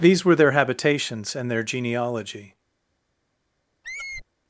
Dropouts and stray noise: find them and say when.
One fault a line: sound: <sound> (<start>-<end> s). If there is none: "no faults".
sound: squeak (3.8-4.2 s)